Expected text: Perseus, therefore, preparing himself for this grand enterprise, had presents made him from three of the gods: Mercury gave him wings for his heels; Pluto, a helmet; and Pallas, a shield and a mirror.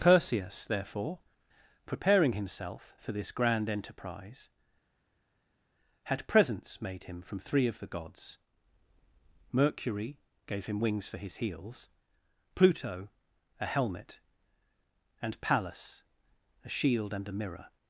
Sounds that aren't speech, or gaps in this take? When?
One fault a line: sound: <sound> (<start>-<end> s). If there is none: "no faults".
no faults